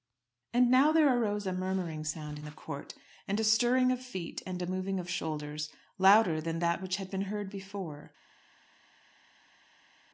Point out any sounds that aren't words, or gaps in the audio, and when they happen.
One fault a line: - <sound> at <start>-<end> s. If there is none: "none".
none